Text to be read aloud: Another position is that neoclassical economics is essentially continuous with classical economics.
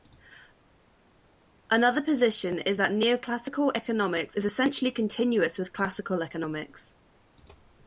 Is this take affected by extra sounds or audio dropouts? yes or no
no